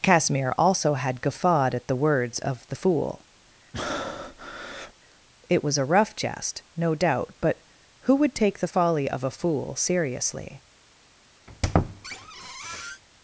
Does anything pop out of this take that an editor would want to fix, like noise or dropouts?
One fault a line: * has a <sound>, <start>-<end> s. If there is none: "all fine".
* has a breath, 3.7-4.9 s
* has a squeak, 11.5-13.0 s